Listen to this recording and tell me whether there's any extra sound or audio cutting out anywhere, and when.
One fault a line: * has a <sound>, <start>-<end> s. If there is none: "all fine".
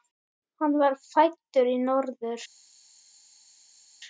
all fine